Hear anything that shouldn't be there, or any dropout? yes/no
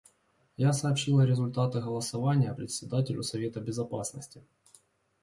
no